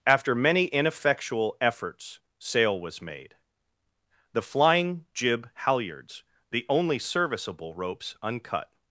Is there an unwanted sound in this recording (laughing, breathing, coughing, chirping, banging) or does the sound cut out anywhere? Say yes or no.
no